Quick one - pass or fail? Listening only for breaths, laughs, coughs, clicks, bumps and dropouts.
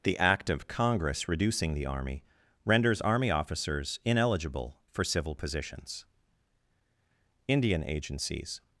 pass